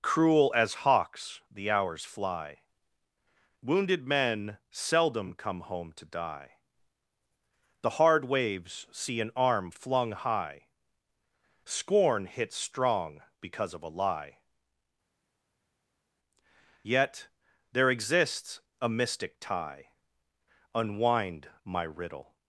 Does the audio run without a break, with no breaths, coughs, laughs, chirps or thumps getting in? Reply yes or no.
yes